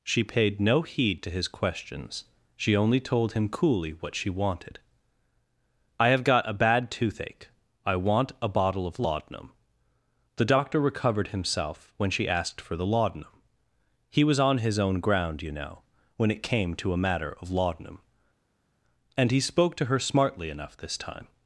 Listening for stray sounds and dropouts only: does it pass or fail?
pass